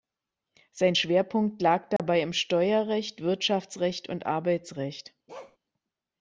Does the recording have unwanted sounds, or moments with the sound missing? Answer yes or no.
yes